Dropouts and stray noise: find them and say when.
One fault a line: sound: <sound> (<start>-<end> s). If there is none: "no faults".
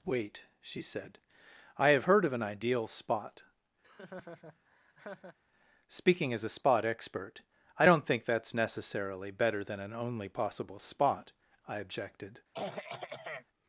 sound: laugh (3.8-5.4 s)
sound: throat clearing (12.5-13.5 s)